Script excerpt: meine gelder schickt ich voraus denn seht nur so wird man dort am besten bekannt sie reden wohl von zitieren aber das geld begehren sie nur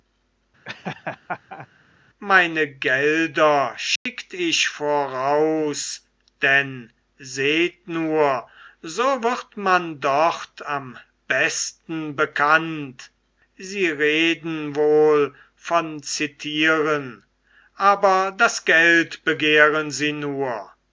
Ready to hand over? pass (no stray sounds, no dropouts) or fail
fail